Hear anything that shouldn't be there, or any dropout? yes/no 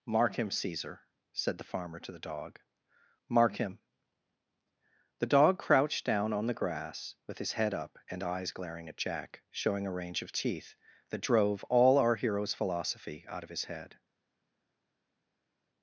no